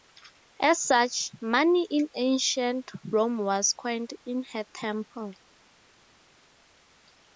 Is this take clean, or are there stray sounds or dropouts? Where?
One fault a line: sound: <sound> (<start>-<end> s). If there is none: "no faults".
no faults